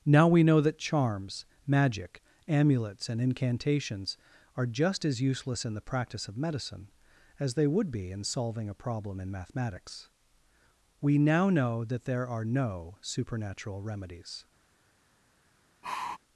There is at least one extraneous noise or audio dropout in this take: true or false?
true